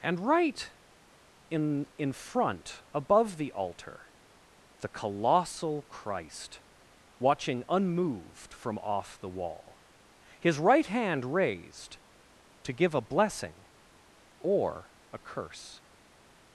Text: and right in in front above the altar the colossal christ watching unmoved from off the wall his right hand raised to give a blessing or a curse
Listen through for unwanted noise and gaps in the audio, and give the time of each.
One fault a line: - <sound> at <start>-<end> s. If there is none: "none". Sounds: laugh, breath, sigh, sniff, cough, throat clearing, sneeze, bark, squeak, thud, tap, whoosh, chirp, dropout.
none